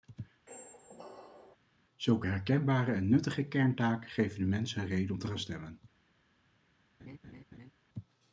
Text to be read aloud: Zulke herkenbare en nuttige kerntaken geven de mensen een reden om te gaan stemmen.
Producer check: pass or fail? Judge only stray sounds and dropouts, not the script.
fail